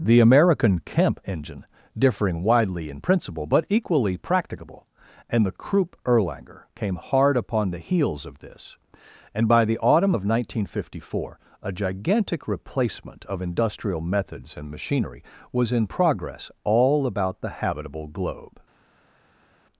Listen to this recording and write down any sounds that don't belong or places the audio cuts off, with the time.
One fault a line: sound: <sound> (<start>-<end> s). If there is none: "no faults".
no faults